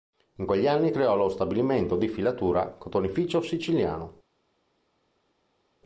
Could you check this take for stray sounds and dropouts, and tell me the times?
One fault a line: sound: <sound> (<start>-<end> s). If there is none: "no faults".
no faults